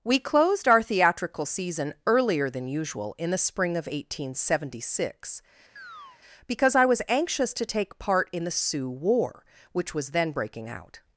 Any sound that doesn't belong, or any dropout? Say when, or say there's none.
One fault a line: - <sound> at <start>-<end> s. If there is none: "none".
- chirp at 5.8-6.2 s